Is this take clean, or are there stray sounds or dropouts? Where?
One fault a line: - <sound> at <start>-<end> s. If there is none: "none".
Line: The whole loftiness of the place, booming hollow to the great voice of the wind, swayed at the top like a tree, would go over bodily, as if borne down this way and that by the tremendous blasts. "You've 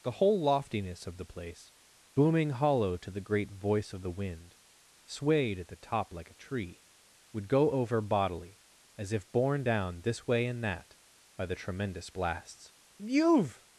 none